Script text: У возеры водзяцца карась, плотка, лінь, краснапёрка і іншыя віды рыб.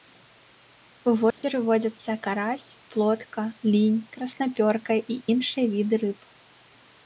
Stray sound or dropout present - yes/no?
yes